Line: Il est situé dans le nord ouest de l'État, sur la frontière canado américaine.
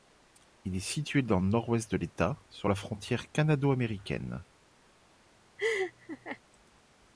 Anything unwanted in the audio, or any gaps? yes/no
yes